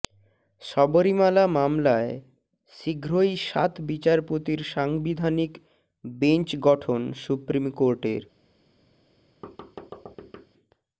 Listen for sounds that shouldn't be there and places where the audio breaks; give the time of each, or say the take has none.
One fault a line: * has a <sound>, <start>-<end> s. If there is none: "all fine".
* has a thud, 9.4-10.5 s